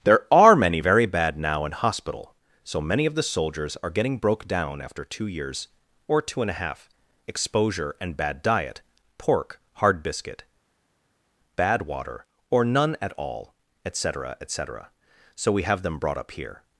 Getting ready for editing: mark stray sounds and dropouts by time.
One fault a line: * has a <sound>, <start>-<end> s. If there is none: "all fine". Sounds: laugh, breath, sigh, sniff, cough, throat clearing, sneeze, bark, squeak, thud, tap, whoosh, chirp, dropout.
all fine